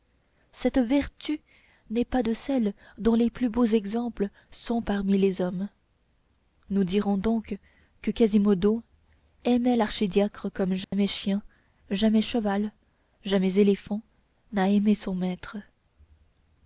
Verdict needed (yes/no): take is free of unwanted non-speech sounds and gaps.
no